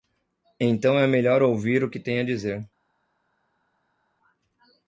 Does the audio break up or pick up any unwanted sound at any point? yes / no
no